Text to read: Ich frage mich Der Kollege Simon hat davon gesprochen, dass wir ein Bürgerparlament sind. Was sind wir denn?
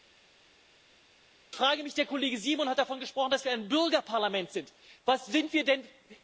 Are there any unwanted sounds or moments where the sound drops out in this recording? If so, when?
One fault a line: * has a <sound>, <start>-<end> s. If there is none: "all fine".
all fine